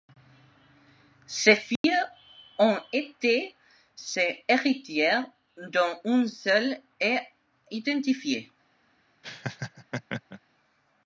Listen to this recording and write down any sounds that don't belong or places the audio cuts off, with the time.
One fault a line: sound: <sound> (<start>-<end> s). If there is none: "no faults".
sound: dropout (1.8-1.8 s)
sound: laugh (9.2-10.4 s)